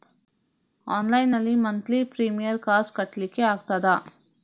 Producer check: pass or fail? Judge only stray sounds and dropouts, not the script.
pass